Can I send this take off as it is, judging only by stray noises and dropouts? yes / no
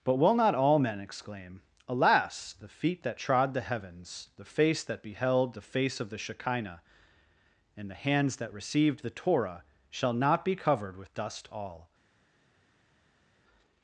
yes